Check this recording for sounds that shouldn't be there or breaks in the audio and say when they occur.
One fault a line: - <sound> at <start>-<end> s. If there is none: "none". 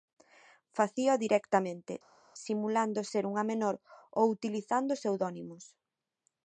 none